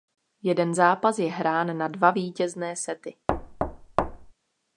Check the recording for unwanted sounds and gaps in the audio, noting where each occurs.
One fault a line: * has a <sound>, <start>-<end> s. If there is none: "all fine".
* has a thud, 3.3-4.3 s